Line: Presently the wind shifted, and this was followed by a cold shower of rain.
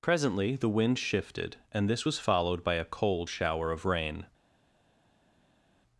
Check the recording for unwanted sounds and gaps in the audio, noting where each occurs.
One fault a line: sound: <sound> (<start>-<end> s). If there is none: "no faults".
no faults